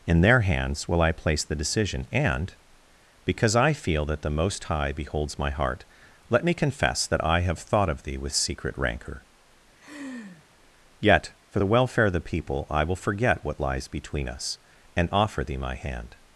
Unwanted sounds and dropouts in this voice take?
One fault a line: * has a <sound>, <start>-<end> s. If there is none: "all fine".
* has a laugh, 9.8-10.4 s